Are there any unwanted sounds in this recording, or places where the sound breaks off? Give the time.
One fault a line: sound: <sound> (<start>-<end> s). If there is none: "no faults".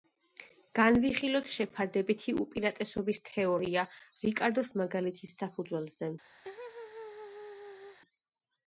sound: laugh (6.4-8.0 s)